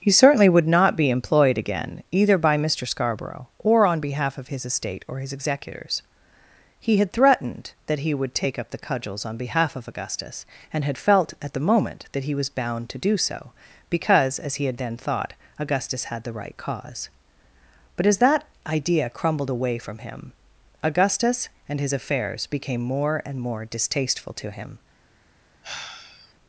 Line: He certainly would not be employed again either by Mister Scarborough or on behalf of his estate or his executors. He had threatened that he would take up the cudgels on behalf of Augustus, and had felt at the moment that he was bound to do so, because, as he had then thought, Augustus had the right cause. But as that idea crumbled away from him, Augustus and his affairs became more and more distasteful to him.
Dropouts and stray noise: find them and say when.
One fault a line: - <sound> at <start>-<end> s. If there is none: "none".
- sigh at 25.6-26.3 s